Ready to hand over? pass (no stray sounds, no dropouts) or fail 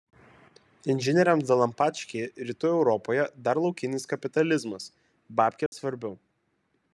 fail